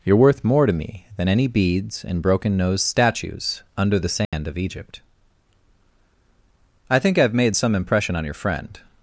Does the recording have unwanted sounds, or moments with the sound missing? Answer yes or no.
yes